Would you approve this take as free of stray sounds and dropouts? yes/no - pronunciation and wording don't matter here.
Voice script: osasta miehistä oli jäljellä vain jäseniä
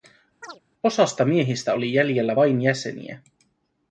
no